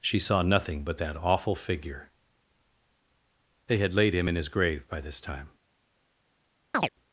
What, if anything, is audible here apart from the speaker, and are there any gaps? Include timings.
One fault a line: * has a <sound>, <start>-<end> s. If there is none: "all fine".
* has a chirp, 6.7-6.9 s